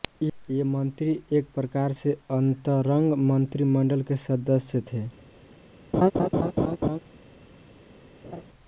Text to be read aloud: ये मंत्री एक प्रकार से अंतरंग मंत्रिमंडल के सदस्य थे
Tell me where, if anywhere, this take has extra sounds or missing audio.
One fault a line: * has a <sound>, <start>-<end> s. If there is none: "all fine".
* has a laugh, 5.9-7.0 s
* has a laugh, 8.2-8.4 s